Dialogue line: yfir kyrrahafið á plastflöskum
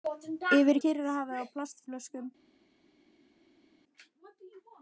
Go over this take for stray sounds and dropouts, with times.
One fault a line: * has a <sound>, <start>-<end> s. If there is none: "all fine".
all fine